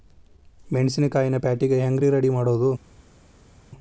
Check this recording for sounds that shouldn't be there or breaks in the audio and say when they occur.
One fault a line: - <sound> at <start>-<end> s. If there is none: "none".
none